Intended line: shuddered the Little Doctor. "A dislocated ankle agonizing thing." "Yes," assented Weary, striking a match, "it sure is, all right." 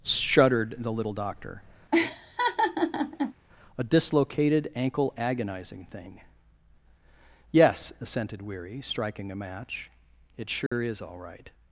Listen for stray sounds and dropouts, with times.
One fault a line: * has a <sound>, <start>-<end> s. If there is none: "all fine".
* has a laugh, 1.9-3.3 s
* has a dropout, 10.7-10.7 s